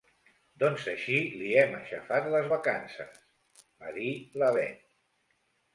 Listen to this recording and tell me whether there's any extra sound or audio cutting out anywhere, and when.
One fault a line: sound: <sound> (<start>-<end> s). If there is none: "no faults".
no faults